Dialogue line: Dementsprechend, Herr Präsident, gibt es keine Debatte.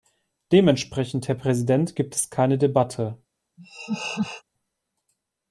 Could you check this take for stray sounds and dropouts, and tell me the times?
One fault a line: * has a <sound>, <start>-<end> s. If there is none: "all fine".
* has a laugh, 3.6-4.4 s